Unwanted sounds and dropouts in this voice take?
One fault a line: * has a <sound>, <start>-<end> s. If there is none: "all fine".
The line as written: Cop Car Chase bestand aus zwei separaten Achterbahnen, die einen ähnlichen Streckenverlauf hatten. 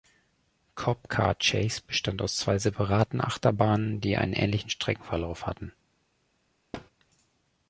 * has a thud, 6.7-6.9 s